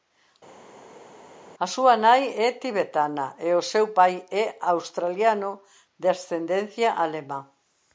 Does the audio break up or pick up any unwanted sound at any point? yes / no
no